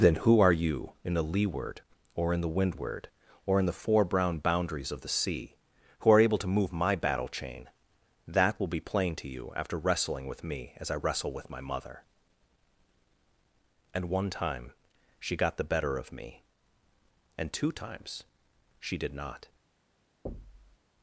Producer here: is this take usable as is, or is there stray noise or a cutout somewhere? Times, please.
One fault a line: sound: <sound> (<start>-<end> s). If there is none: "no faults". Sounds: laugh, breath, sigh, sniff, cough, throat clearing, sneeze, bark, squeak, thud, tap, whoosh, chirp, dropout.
sound: thud (20.3-20.8 s)